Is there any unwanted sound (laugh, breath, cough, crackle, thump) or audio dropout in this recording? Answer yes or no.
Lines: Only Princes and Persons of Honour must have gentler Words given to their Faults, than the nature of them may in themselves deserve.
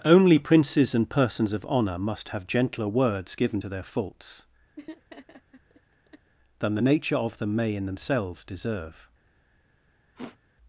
yes